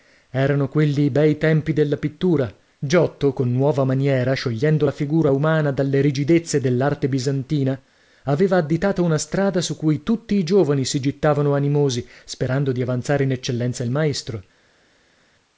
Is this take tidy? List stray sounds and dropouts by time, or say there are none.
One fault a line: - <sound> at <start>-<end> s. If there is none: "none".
none